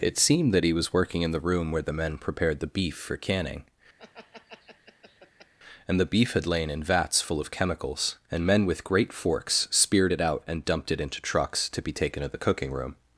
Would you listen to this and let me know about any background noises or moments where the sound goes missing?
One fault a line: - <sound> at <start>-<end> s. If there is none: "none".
- laugh at 4.0-5.5 s